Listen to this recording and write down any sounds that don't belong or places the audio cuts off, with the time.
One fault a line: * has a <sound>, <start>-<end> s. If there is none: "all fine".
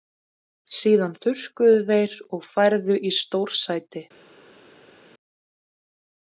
all fine